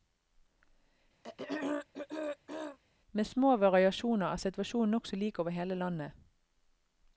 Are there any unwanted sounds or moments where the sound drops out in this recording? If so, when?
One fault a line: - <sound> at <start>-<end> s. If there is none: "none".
- throat clearing at 1.2-2.8 s